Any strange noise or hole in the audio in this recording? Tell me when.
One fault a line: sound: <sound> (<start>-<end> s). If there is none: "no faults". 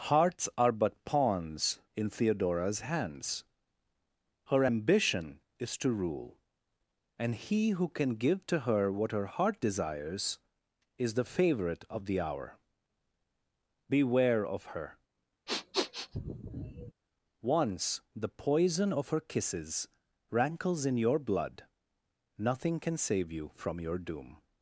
sound: sniff (15.5-16.9 s)